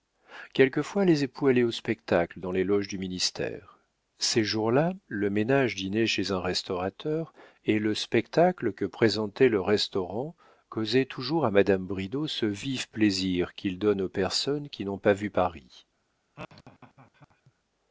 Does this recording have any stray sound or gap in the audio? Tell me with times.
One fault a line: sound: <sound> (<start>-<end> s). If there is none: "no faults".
sound: laugh (16.4-17.5 s)